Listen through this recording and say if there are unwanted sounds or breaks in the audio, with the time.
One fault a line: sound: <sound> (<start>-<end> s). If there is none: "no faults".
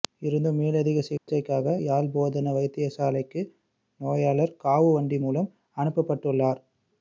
sound: dropout (1.2-1.3 s)